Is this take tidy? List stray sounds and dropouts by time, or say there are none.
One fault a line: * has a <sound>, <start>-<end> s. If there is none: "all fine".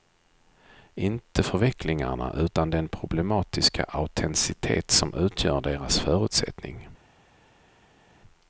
all fine